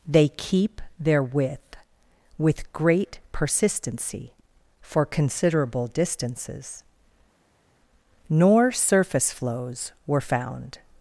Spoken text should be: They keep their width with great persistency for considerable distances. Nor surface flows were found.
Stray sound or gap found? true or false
false